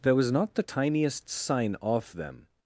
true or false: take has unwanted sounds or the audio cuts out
false